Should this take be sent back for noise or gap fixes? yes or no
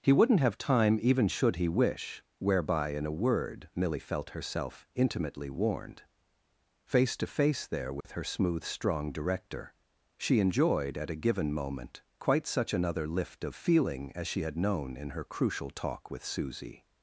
yes